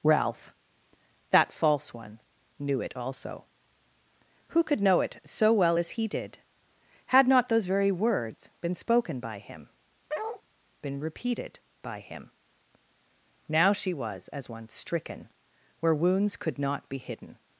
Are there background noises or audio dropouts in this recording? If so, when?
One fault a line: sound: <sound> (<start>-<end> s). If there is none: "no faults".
sound: bark (10.1-10.4 s)